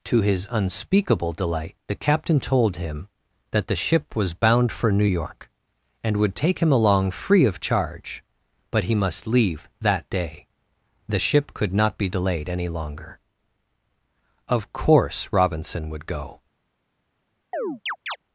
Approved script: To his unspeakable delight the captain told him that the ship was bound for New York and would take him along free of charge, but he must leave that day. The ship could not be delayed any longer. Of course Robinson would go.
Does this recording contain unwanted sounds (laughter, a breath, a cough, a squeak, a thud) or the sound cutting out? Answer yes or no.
yes